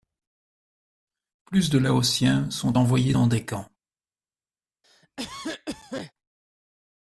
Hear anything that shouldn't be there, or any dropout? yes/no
yes